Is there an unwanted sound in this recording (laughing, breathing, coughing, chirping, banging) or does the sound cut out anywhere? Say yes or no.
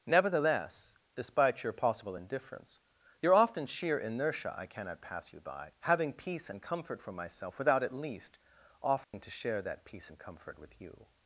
yes